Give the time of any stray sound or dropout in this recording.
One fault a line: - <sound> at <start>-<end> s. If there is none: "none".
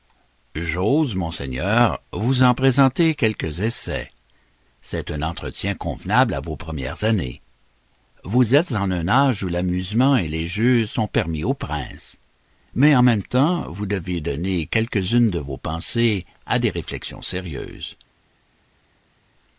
none